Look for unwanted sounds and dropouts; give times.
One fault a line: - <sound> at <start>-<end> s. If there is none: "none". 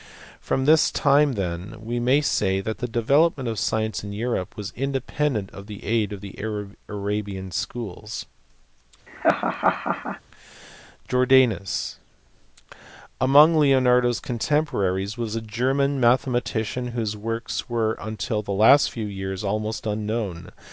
- laugh at 9.1-10.2 s